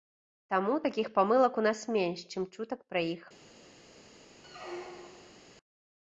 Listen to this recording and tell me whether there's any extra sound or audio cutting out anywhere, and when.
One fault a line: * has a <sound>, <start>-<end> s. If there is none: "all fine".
* has a squeak, 4.4-5.4 s